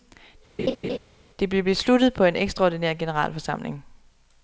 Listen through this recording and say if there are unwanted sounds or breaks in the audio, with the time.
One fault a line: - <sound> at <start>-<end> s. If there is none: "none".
- laugh at 0.6-1.0 s